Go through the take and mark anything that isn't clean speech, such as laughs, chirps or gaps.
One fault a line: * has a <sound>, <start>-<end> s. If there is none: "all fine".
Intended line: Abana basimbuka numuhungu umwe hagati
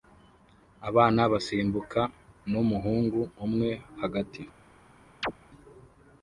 * has a chirp, 5.2-5.3 s